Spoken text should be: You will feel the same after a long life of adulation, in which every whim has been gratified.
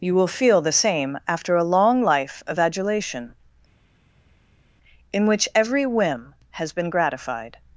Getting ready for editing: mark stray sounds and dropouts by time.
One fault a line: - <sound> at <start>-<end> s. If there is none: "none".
none